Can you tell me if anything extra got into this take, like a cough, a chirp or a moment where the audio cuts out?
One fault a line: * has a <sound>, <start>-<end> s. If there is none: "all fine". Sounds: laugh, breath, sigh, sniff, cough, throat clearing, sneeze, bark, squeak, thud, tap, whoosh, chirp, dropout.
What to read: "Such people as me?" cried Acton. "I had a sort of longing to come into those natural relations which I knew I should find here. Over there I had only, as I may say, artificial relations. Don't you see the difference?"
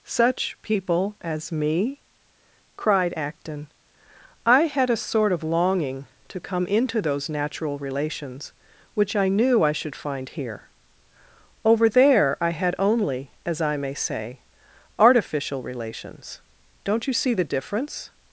all fine